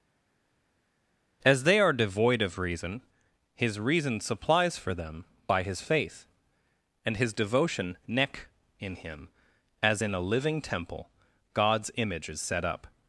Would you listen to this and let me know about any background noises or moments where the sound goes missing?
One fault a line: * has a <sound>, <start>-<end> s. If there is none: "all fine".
all fine